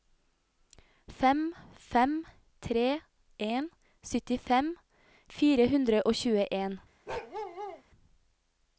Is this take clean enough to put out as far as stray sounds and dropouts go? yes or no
no